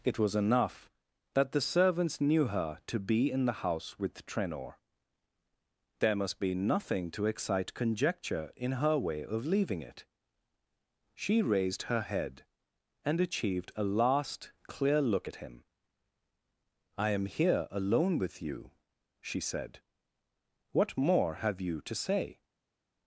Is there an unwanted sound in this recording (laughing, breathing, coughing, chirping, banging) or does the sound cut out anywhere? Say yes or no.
no